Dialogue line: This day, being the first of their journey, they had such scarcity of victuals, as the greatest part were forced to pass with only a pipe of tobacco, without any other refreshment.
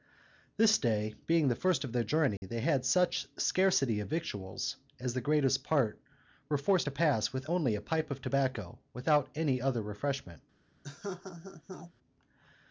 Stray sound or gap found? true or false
true